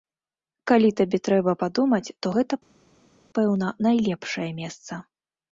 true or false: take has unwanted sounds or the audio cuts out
false